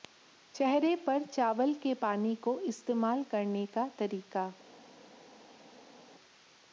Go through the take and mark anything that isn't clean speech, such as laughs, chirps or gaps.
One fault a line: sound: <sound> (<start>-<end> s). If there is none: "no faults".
no faults